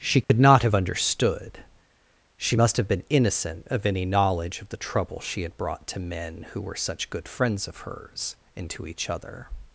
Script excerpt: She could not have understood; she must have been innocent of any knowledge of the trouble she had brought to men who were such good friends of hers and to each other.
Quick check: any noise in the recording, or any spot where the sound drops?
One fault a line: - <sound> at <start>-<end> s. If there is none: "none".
- dropout at 0.2-0.3 s